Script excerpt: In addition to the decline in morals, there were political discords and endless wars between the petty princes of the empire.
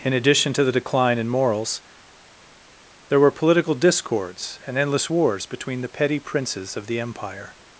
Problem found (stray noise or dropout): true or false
false